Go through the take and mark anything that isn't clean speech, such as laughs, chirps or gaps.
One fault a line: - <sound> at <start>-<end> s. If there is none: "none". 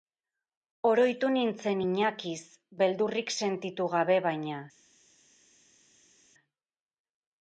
none